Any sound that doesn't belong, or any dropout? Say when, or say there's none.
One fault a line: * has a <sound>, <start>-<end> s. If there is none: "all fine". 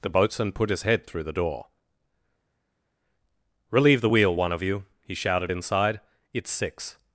all fine